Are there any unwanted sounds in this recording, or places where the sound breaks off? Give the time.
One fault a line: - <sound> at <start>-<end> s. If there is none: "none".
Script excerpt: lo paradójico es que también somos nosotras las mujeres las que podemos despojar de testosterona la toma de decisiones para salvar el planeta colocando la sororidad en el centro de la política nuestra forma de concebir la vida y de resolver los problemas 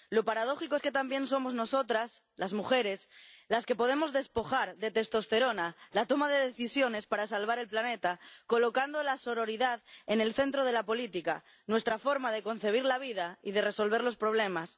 none